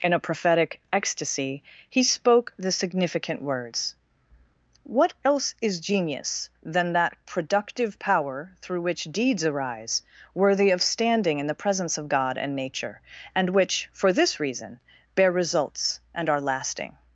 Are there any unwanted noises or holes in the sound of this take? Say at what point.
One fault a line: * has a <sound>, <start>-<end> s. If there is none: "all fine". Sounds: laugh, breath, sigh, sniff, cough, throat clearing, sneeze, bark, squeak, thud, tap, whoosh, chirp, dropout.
all fine